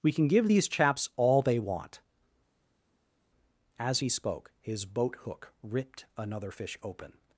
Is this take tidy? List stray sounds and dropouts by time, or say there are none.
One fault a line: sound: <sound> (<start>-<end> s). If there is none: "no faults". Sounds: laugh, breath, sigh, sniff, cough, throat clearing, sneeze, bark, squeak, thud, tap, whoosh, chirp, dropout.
no faults